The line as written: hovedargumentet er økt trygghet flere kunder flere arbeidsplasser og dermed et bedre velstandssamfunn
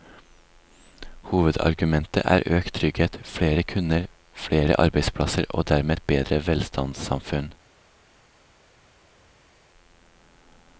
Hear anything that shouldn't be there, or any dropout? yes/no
no